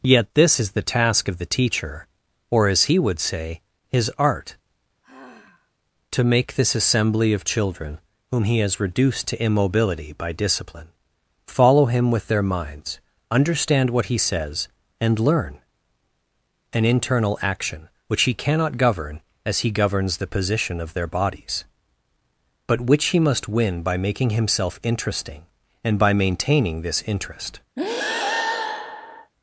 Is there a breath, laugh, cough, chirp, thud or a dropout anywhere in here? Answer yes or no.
yes